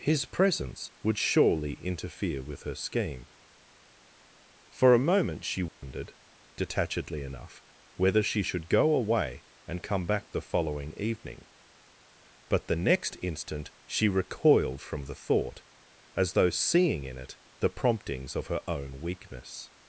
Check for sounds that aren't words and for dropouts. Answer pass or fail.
fail